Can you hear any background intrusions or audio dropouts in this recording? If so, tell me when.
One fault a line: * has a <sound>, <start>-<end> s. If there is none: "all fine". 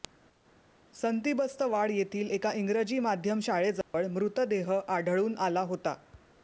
* has a dropout, 3.8-3.9 s